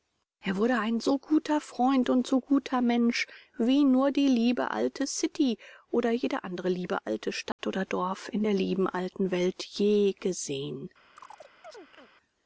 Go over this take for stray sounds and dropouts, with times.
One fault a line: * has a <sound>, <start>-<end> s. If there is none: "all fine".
* has a dropout, 7.5-7.6 s
* has a chirp, 11.2-12.1 s